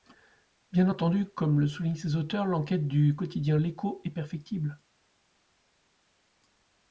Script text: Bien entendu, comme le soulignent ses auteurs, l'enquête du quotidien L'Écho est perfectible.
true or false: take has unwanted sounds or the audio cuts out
false